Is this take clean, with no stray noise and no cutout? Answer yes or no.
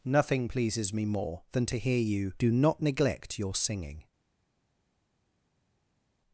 yes